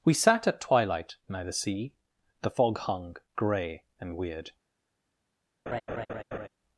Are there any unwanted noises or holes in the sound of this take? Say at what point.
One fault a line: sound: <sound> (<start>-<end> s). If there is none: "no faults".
sound: laugh (5.7-6.5 s)